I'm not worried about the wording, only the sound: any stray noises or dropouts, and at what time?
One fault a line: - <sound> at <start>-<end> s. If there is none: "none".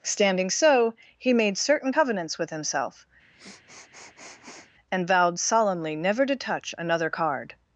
- sniff at 3.3-4.7 s